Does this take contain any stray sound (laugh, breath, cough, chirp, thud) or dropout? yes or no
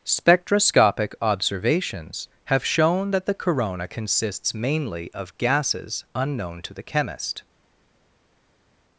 no